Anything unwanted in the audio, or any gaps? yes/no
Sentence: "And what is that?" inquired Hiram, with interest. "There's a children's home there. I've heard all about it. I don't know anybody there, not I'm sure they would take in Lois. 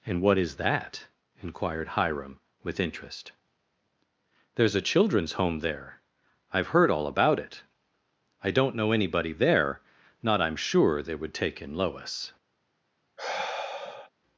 yes